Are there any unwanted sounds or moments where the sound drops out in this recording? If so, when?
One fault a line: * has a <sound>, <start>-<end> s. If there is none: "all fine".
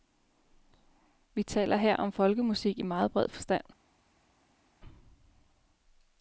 all fine